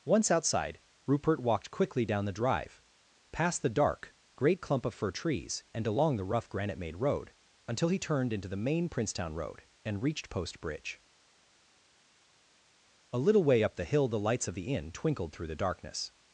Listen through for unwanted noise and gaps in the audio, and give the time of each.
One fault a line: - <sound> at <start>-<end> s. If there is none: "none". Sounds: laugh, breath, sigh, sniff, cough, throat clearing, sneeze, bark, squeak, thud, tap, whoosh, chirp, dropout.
none